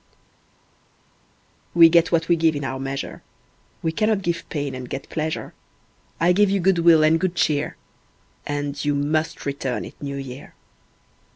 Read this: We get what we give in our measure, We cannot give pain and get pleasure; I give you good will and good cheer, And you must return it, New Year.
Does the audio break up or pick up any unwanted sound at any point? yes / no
no